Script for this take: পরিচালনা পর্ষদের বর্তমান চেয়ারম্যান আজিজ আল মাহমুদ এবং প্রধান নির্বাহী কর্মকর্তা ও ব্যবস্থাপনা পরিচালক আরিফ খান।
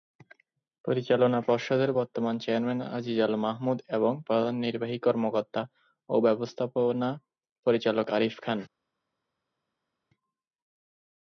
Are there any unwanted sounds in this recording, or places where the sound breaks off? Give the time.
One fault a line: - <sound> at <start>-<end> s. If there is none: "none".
none